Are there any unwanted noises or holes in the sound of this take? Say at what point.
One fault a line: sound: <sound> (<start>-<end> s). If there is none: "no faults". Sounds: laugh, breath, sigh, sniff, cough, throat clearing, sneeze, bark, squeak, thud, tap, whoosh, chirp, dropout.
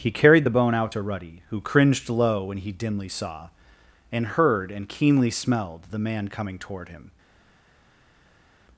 no faults